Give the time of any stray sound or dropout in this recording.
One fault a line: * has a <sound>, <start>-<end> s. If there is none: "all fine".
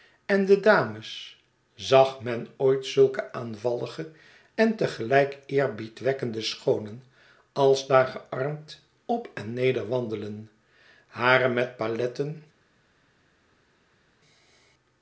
all fine